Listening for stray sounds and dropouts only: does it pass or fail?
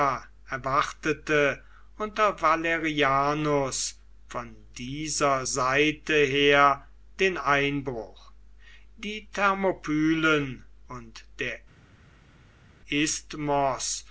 pass